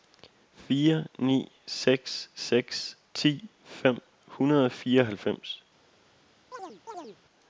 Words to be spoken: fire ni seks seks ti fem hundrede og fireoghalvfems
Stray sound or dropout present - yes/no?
yes